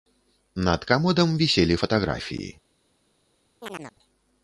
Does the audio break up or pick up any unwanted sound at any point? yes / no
yes